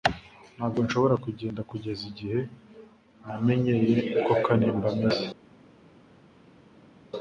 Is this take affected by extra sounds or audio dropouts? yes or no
no